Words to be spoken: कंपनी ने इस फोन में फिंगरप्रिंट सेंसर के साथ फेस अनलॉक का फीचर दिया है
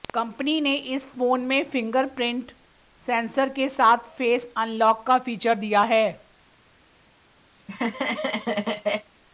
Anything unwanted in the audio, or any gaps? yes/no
yes